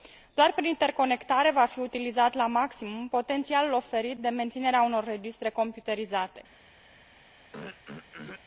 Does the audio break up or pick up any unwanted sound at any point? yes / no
yes